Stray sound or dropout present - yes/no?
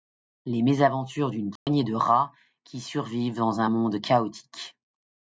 yes